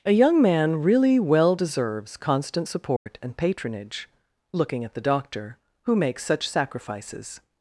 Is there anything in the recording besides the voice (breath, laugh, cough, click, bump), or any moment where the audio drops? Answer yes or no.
yes